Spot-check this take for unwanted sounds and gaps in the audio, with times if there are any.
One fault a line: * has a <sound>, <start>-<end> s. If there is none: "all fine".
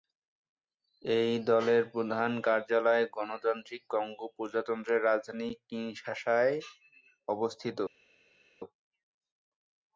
all fine